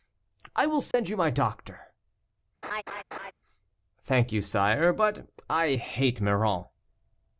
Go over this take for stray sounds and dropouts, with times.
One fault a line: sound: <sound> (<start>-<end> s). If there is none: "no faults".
sound: dropout (0.9-0.9 s)
sound: laugh (2.6-3.3 s)